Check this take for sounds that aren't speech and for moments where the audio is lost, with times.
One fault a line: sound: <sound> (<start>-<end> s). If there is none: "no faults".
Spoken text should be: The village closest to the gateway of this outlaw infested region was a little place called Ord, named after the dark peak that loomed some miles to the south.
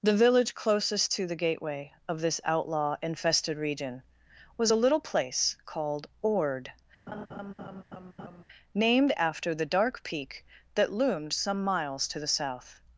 sound: laugh (7.1-8.4 s)